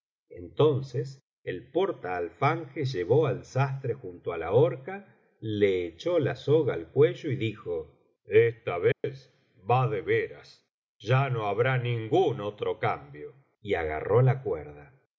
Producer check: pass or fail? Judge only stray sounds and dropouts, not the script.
fail